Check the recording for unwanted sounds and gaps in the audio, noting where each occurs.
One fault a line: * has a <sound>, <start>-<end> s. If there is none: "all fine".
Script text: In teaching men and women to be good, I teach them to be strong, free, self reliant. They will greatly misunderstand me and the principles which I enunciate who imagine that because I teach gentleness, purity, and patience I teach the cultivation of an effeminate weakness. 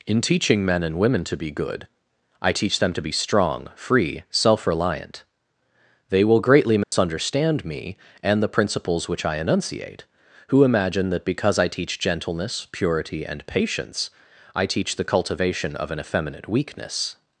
* has a dropout, 6.8-6.9 s